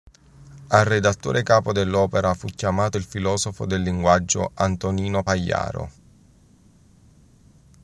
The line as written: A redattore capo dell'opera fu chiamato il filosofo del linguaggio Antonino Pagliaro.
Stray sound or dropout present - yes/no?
no